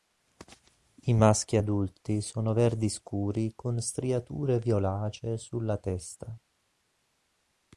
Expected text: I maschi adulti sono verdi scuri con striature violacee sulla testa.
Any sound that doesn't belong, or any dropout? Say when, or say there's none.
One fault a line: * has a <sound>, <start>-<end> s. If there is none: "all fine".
all fine